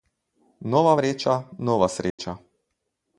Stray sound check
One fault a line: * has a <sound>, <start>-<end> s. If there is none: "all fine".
* has a dropout, 2.1-2.2 s